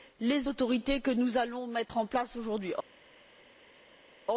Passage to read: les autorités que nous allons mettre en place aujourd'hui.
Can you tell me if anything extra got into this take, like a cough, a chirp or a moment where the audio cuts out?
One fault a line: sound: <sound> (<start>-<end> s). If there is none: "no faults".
no faults